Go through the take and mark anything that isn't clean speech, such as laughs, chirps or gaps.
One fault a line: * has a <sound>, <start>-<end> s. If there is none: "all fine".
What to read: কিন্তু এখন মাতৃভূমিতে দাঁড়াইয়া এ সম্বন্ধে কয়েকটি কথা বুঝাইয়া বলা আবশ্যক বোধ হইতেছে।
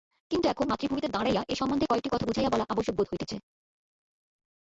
all fine